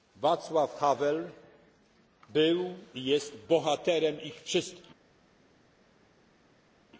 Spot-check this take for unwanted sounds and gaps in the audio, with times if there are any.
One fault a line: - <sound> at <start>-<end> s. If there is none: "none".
none